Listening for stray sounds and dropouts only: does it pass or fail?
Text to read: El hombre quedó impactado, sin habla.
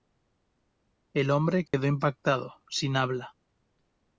fail